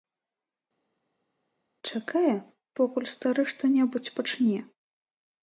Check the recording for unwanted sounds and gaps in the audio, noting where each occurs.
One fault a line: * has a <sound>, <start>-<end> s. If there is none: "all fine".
all fine